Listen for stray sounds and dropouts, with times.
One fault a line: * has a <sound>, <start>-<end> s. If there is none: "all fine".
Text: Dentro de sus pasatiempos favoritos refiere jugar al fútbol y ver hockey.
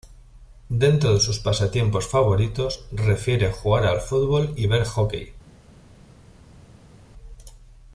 all fine